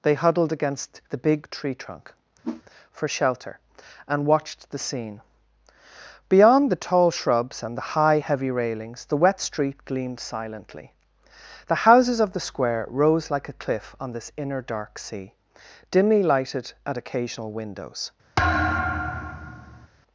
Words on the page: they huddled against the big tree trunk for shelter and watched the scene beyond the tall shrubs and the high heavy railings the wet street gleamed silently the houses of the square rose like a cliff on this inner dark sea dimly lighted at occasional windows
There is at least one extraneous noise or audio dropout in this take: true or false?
true